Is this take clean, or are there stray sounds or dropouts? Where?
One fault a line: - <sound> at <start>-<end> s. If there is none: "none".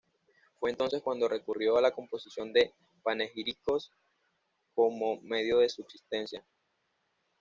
none